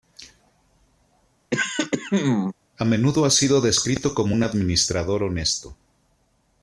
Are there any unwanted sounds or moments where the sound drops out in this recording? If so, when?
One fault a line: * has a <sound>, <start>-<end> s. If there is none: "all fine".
* has a throat clearing, 1.5-2.5 s